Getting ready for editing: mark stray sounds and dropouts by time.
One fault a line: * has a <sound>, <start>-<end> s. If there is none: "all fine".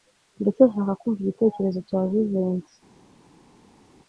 all fine